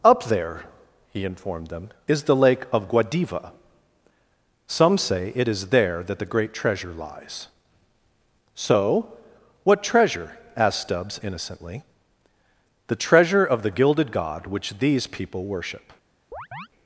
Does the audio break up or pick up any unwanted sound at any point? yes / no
yes